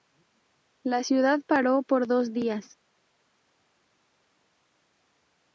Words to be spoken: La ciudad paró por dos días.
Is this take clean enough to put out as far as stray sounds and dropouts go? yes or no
yes